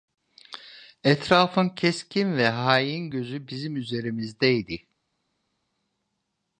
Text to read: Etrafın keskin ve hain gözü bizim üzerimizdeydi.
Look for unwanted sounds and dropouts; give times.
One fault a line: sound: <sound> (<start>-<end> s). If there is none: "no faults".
no faults